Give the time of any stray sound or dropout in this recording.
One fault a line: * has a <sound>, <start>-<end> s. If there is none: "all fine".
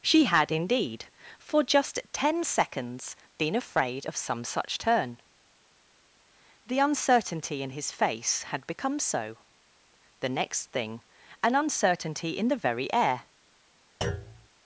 * has a thud, 14.0-14.5 s